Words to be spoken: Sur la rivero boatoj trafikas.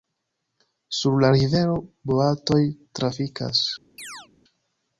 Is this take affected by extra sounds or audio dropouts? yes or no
yes